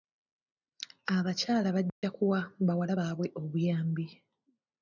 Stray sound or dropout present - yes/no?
yes